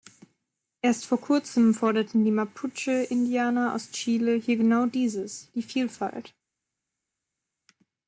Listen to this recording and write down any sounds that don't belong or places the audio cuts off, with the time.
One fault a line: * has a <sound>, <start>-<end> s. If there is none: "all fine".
all fine